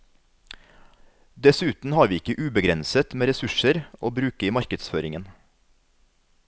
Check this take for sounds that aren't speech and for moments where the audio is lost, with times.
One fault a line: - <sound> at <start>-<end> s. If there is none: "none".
none